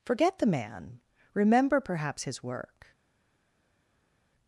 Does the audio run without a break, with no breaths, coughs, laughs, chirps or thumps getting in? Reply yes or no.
yes